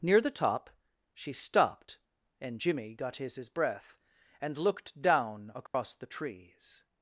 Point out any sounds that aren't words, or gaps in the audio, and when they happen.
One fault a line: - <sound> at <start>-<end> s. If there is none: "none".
- dropout at 5.7-5.7 s